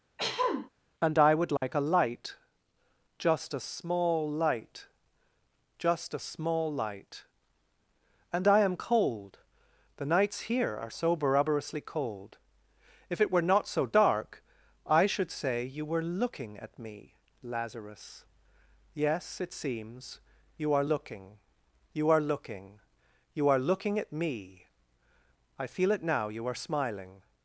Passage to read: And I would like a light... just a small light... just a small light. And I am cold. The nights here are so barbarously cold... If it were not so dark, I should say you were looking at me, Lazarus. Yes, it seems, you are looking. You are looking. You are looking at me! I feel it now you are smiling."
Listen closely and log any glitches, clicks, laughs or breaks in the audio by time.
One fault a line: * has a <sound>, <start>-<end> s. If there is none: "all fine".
* has a throat clearing, 0.2-0.7 s
* has a dropout, 1.6-1.6 s